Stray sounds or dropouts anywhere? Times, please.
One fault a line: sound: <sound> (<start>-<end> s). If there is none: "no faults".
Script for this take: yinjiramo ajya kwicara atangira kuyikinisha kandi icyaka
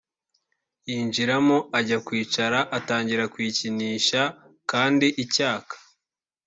no faults